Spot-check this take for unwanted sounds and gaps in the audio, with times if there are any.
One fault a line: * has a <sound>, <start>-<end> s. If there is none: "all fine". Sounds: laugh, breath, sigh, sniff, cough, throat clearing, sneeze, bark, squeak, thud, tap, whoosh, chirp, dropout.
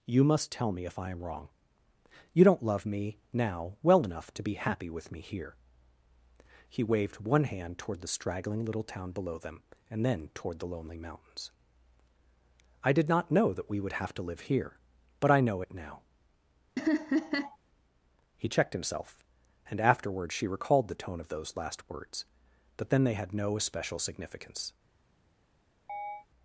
* has a laugh, 16.8-17.6 s
* has a chirp, 25.9-26.3 s